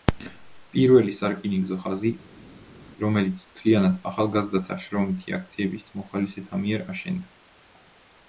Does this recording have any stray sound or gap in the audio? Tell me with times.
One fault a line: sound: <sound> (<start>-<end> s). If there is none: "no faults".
no faults